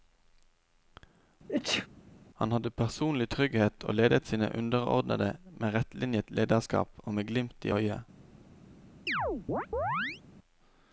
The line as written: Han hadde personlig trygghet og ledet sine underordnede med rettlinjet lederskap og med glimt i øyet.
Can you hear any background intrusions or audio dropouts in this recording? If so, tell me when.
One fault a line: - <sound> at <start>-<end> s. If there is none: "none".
- sneeze at 1.5-1.9 s
- chirp at 9.1-10.2 s